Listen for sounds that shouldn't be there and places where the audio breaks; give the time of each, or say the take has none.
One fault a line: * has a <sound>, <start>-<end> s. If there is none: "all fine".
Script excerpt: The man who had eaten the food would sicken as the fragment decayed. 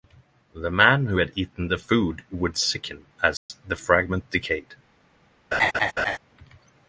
* has a dropout, 3.4-3.5 s
* has a laugh, 5.5-6.2 s